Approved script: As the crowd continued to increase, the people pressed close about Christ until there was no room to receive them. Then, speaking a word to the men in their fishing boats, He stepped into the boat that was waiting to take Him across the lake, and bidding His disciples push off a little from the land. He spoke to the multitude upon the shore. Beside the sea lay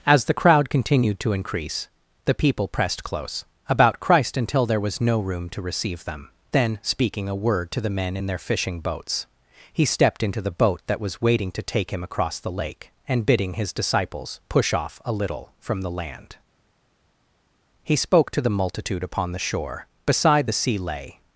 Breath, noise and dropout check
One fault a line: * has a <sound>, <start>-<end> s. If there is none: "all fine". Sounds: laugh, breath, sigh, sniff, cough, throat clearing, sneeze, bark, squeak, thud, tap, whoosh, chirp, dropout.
all fine